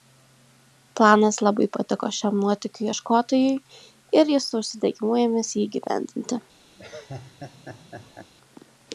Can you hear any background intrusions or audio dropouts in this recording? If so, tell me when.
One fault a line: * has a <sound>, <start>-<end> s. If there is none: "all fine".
* has a laugh, 6.8-8.3 s